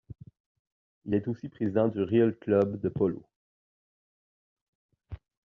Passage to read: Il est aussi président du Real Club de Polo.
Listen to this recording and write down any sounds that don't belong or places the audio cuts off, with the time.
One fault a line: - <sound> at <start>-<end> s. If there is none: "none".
none